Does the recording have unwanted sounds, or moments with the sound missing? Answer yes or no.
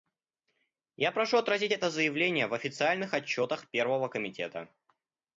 no